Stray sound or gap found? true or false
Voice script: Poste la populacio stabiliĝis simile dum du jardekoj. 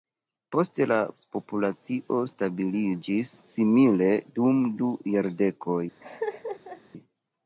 true